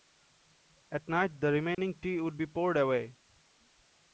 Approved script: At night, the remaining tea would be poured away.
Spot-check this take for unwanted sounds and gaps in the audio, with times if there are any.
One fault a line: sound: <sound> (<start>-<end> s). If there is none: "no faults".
sound: dropout (1.7-1.8 s)